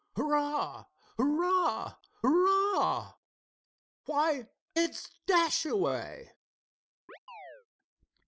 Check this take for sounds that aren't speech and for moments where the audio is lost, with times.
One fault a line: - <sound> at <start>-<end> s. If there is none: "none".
- chirp at 7.1-7.7 s